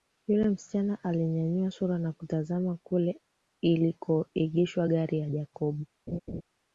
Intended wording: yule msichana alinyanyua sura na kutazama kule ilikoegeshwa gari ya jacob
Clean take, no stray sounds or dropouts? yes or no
no